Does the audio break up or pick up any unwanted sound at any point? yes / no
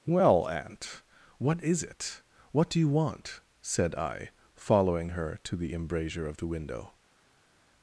no